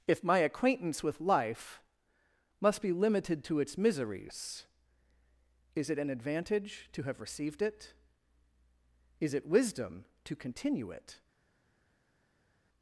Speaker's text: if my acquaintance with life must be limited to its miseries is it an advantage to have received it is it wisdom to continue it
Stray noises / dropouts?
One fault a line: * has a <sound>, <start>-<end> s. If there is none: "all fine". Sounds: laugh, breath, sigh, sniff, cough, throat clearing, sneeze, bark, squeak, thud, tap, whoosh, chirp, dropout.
all fine